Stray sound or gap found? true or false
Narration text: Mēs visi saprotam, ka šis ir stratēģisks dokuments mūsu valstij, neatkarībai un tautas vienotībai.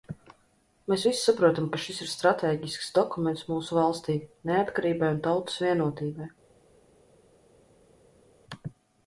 false